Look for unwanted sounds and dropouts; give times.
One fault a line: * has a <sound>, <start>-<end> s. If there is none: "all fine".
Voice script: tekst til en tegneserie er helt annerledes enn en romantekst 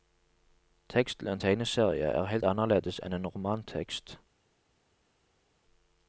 all fine